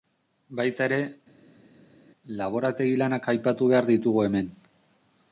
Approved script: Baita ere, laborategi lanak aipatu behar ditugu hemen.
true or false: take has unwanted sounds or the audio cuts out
false